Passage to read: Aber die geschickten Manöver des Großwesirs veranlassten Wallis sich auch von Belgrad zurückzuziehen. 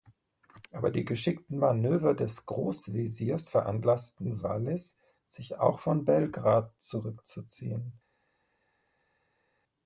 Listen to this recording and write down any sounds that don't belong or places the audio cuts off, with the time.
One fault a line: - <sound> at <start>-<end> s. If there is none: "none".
none